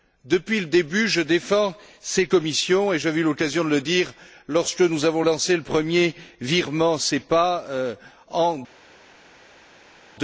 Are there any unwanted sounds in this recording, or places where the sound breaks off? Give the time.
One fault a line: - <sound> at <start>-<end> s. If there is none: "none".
none